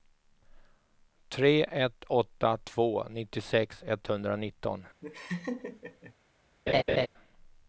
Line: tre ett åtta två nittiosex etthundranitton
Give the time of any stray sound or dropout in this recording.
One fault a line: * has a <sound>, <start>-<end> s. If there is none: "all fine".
* has a laugh, 5.0-6.1 s
* has a laugh, 6.7-7.1 s